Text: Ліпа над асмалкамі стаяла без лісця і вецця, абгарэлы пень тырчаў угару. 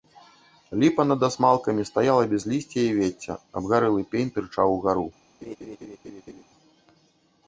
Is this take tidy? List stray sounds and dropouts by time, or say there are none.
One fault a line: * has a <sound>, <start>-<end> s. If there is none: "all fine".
* has a laugh, 5.4-6.4 s